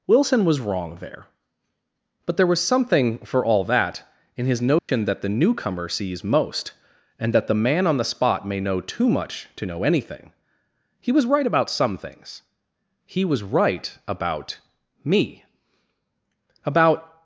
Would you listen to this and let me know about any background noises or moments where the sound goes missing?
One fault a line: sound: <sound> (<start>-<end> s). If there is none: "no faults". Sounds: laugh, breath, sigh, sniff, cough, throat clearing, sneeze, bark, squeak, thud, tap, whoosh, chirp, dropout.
sound: dropout (4.8-4.9 s)